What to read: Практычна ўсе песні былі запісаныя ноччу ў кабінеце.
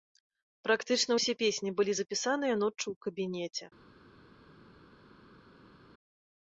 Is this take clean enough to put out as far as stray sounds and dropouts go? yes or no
yes